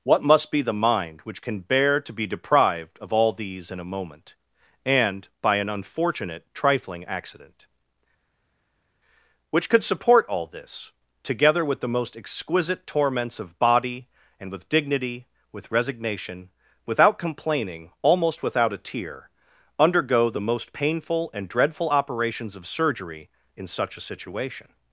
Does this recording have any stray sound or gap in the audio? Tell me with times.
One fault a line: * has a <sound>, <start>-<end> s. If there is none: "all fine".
all fine